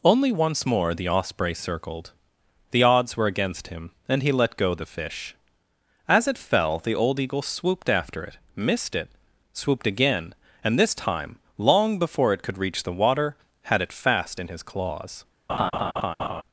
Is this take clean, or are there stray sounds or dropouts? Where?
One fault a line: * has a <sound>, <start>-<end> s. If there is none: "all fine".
* has a laugh, 15.5-16.4 s